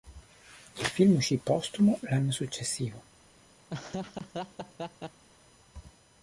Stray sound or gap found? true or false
true